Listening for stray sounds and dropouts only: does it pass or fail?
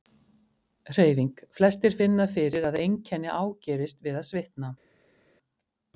pass